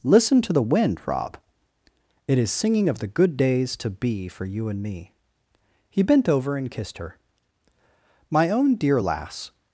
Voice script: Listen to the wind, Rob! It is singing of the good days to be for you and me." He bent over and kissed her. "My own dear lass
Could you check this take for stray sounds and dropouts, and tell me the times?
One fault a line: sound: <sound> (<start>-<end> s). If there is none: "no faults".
no faults